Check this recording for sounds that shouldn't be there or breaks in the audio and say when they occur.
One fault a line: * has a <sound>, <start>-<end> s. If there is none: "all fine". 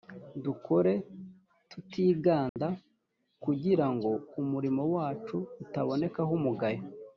* has a dropout, 2.5-2.6 s